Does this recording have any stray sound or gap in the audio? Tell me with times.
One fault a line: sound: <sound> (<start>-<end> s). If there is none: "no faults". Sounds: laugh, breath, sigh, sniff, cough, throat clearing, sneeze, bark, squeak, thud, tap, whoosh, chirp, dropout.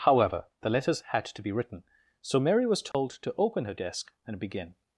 sound: dropout (2.9-2.9 s)